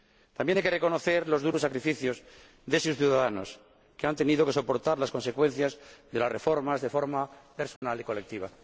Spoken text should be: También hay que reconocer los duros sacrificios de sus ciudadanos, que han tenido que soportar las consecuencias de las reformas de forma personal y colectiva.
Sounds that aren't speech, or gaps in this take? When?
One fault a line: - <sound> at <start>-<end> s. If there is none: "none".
- dropout at 7.8-7.8 s